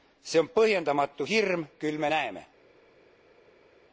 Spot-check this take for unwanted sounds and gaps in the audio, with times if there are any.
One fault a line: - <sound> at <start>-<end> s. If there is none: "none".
none